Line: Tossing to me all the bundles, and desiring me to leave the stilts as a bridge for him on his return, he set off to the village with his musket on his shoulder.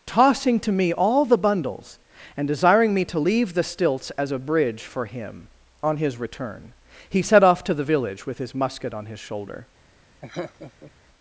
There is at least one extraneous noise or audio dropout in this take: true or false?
true